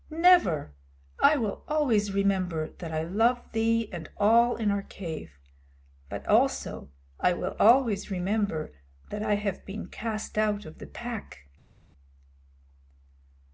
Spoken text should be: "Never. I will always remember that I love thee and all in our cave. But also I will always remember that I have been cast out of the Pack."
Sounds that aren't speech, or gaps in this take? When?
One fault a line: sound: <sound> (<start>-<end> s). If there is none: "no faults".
no faults